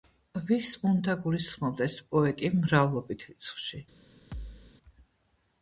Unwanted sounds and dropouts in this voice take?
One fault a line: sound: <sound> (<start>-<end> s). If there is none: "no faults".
sound: thud (4.3-4.7 s)